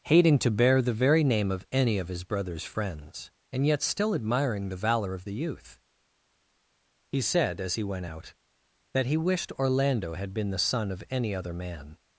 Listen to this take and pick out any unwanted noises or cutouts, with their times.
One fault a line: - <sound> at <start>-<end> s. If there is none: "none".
none